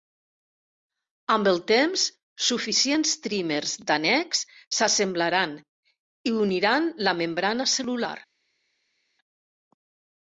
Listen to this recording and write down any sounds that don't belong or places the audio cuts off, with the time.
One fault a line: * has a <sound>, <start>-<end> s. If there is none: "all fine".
all fine